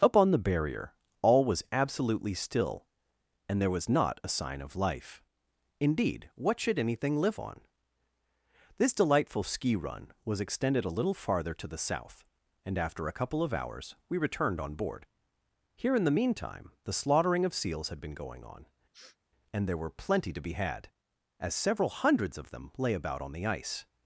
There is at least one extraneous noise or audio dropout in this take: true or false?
true